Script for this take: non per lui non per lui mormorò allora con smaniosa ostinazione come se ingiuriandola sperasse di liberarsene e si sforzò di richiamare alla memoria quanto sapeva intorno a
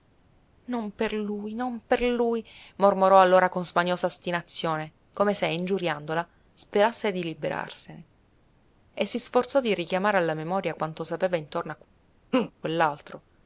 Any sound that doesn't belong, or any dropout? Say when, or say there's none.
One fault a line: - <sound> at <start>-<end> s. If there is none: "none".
- laugh at 12.3-12.5 s